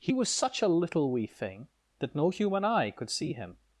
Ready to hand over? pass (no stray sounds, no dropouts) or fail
pass